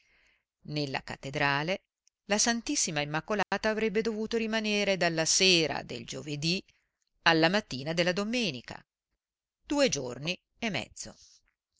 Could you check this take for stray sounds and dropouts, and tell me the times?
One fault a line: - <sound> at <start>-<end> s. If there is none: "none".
- dropout at 3.4-3.5 s